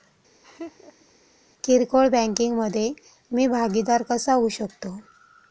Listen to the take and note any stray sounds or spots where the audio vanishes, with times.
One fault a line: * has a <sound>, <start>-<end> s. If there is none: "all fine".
* has a laugh, 0.4-1.1 s